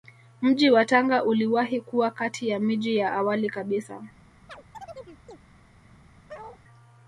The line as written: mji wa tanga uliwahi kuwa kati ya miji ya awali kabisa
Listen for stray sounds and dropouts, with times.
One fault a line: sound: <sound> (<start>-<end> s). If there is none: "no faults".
sound: chirp (4.5-5.4 s)
sound: bark (6.3-6.6 s)